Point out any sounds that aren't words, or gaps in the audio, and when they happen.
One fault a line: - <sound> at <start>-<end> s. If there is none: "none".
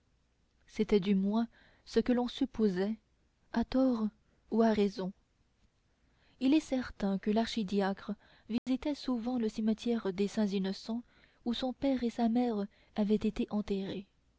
- dropout at 8.6-8.7 s